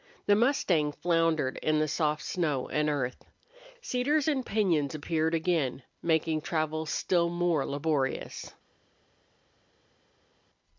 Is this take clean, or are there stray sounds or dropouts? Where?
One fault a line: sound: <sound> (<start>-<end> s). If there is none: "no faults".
no faults